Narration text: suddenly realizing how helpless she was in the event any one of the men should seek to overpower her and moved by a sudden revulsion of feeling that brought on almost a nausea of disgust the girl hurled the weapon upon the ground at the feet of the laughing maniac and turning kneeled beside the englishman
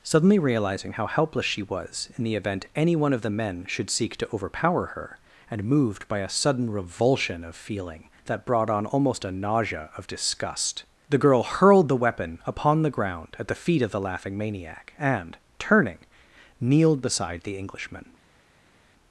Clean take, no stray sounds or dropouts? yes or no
yes